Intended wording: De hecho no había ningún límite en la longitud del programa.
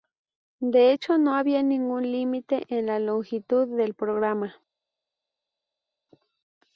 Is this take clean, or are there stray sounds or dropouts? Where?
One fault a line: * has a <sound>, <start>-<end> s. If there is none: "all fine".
all fine